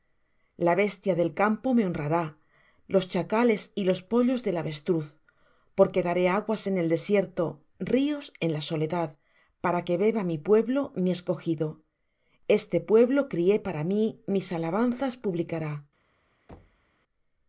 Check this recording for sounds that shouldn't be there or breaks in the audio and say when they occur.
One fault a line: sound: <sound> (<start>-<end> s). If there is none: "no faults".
sound: thud (16.5-16.9 s)